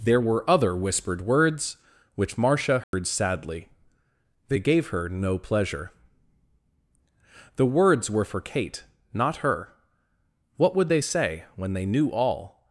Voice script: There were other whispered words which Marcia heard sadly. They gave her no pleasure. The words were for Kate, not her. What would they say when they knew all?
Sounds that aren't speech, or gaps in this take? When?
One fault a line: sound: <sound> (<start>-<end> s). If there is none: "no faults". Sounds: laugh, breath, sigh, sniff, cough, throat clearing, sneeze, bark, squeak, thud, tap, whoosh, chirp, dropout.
sound: dropout (2.8-2.9 s)